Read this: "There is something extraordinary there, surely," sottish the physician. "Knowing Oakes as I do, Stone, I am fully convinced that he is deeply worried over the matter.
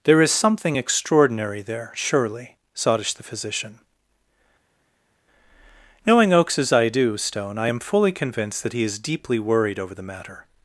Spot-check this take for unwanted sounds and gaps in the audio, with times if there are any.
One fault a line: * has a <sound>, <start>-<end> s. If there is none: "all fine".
all fine